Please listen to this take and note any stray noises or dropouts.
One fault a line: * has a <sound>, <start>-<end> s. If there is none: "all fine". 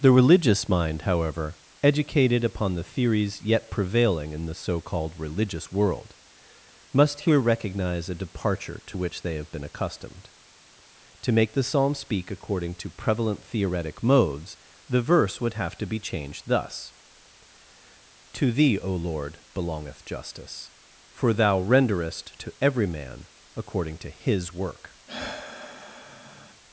* has a sigh, 25.1-26.6 s